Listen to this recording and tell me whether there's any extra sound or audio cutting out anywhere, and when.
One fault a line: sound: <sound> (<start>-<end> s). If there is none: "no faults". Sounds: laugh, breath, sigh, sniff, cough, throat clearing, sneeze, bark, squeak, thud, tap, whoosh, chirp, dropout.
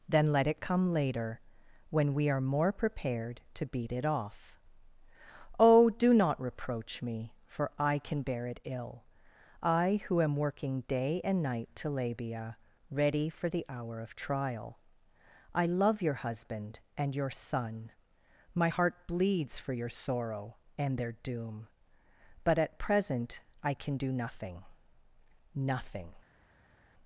no faults